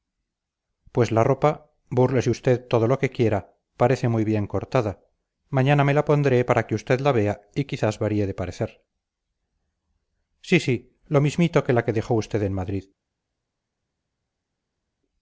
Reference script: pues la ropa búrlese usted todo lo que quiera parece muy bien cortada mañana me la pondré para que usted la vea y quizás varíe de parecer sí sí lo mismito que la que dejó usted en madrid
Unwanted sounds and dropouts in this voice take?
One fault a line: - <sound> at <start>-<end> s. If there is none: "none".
none